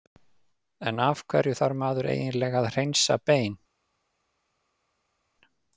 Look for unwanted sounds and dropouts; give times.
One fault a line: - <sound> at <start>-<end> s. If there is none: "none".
none